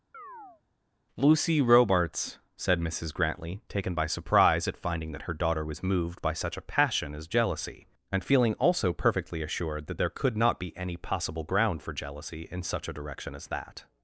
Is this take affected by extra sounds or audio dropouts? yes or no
yes